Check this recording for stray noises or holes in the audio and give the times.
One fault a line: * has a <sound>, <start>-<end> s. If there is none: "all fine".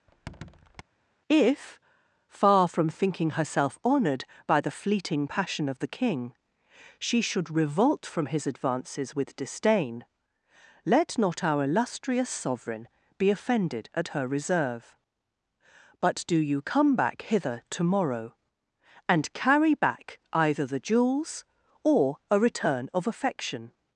* has a squeak, 0.1-0.8 s